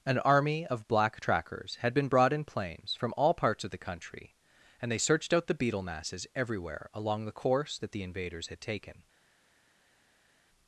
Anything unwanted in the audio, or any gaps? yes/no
no